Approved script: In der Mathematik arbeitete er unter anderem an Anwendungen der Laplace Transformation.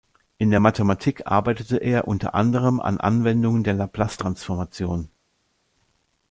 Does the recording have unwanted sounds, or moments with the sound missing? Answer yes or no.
no